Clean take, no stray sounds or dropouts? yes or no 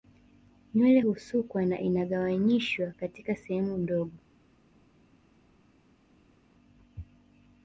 yes